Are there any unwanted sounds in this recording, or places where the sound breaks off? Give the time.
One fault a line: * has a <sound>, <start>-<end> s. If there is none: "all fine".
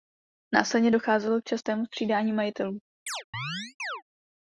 * has a chirp, 3.1-4.0 s